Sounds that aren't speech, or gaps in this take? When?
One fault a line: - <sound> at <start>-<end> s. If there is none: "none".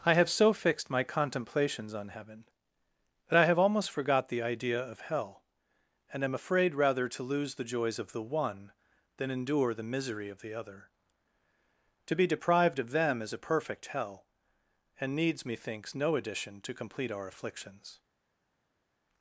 none